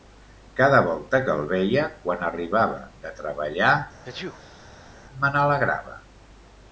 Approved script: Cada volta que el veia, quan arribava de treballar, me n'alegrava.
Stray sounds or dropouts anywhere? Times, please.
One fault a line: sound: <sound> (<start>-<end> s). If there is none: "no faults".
sound: sneeze (4.0-4.9 s)